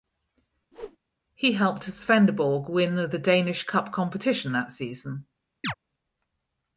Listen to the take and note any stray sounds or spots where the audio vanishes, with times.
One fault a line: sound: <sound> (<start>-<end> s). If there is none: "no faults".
sound: whoosh (0.7-1.0 s)
sound: chirp (5.6-5.7 s)